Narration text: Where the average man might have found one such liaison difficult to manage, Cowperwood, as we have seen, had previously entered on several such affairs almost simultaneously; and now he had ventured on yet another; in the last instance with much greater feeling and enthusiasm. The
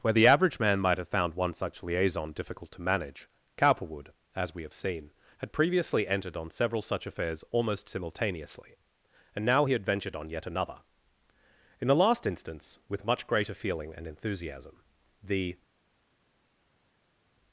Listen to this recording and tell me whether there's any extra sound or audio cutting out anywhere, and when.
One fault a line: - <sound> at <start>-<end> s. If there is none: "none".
none